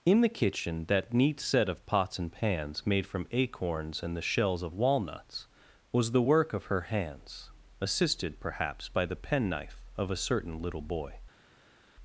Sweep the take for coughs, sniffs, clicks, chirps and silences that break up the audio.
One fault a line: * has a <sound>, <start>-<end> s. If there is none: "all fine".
all fine